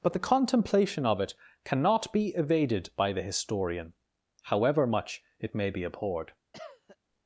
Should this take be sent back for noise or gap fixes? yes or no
yes